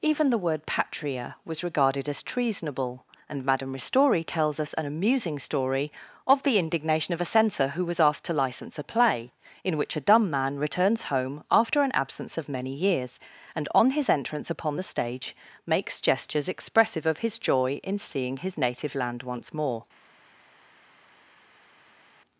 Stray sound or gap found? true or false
false